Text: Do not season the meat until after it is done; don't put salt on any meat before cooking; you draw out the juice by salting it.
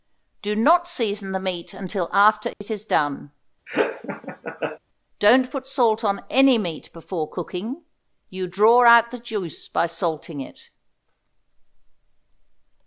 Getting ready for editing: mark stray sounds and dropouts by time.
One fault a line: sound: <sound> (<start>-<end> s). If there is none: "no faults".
sound: dropout (2.5-2.6 s)
sound: laugh (3.7-4.8 s)